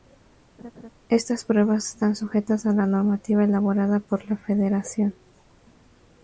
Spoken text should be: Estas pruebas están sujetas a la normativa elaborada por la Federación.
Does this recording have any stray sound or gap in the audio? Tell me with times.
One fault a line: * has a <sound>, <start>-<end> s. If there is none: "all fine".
* has a laugh, 0.6-0.9 s